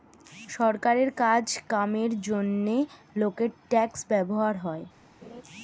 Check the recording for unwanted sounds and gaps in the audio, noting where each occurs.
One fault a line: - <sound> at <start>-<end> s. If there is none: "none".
- laugh at 5.2-5.4 s